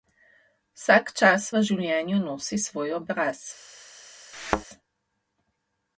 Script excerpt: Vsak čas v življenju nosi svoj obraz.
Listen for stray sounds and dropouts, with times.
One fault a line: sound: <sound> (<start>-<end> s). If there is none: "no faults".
sound: thud (4.3-4.7 s)